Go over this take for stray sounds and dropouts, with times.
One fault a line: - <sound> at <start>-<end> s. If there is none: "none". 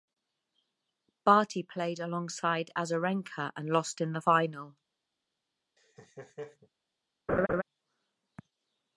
- laugh at 5.8-6.7 s
- laugh at 7.3-7.6 s